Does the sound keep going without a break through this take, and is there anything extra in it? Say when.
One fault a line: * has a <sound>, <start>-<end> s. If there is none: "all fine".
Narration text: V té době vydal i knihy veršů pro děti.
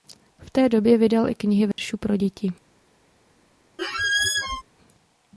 * has a dropout, 1.7-1.8 s
* has a squeak, 3.8-4.6 s